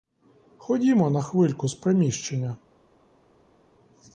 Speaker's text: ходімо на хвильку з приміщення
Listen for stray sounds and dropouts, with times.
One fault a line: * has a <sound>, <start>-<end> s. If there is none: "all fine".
all fine